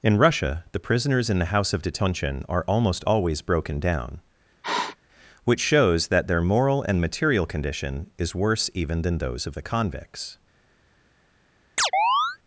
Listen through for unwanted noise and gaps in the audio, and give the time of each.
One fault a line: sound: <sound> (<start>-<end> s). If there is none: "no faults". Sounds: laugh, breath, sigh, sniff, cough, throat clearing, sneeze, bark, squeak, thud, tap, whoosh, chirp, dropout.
sound: sniff (4.6-5.0 s)
sound: chirp (11.8-12.4 s)